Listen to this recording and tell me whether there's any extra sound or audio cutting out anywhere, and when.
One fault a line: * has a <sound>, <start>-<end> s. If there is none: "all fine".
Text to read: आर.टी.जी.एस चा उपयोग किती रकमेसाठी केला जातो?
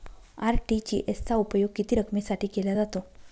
all fine